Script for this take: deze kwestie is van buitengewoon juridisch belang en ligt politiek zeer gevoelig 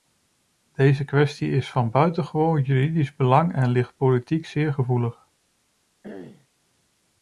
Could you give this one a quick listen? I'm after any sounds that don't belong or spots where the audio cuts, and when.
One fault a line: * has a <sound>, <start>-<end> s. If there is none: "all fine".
* has a throat clearing, 6.0-6.5 s